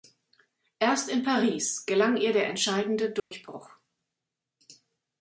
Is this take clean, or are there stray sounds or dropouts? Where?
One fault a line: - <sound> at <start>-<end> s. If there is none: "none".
- dropout at 3.2-3.3 s